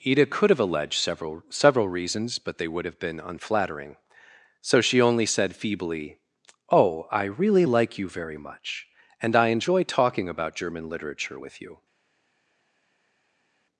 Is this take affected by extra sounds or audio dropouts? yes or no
no